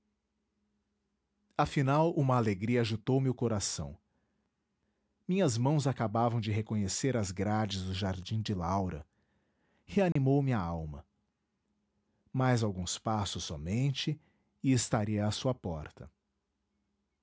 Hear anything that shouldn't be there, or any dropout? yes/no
yes